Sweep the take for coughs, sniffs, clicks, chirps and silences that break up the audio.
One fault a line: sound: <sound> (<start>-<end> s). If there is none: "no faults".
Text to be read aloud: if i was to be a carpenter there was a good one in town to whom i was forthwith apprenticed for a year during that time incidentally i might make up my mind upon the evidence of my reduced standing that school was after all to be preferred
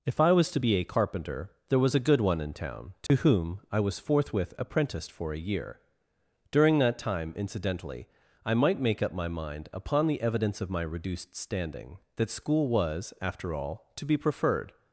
sound: dropout (3.1-3.1 s)